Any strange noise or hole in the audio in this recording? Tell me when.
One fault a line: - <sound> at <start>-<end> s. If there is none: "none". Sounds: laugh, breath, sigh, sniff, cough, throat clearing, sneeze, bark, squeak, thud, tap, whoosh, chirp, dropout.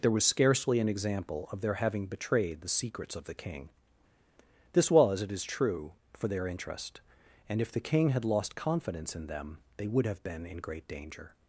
none